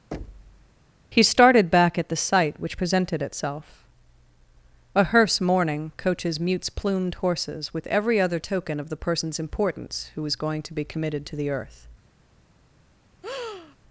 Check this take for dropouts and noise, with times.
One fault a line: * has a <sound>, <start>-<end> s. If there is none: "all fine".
* has a thud, 0.1-0.8 s
* has a breath, 13.2-13.8 s